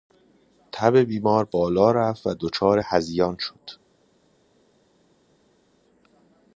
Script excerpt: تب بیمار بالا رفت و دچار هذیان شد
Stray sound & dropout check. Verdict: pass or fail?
pass